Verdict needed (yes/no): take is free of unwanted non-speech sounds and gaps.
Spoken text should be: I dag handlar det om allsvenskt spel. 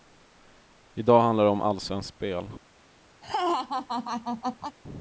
no